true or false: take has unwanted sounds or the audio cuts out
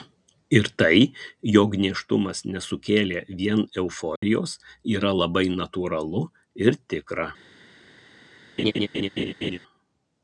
true